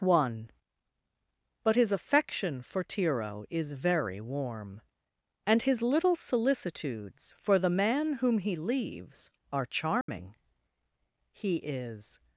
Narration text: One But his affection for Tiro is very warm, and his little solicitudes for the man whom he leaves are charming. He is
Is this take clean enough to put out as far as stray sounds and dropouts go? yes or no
no